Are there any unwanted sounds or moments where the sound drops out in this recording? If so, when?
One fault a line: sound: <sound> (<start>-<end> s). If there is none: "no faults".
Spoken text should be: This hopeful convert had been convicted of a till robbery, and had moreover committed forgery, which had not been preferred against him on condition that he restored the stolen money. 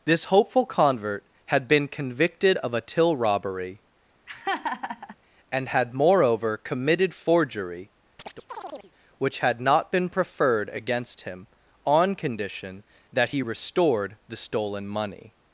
sound: laugh (4.3-5.2 s)
sound: chirp (8.2-8.9 s)